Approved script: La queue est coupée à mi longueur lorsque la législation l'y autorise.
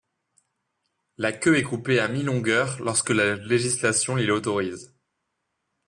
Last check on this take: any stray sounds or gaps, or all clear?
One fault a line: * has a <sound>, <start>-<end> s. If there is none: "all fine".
all fine